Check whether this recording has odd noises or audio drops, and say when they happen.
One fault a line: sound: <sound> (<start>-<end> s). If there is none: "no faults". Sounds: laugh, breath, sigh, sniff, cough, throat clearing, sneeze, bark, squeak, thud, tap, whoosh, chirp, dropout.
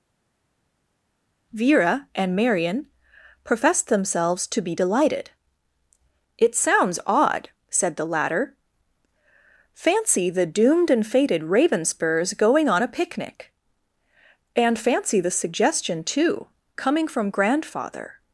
no faults